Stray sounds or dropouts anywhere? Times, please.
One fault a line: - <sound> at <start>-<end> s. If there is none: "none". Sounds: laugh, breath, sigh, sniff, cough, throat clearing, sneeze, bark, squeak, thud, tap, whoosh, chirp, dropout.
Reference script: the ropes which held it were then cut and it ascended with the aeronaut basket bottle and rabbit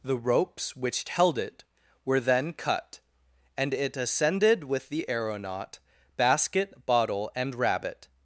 none